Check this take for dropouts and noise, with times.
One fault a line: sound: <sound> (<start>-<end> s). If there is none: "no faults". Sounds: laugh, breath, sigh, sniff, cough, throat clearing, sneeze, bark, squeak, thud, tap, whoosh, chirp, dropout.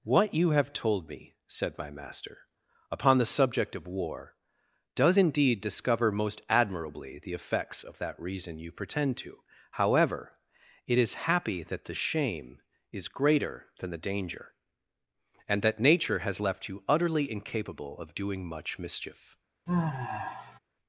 sound: sigh (19.7-20.6 s)